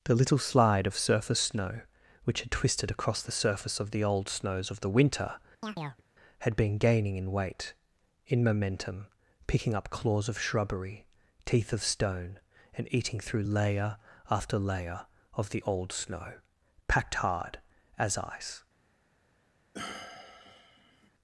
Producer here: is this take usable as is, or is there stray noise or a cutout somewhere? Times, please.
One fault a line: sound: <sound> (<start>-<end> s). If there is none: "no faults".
sound: chirp (5.6-6.0 s)
sound: sigh (19.7-21.1 s)